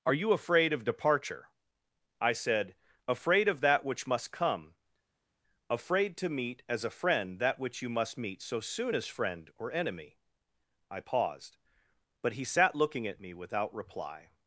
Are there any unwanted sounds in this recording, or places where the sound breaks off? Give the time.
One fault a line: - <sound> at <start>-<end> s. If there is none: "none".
none